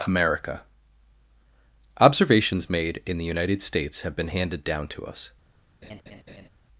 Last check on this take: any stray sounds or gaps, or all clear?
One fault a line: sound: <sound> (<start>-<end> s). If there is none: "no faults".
sound: laugh (5.8-6.5 s)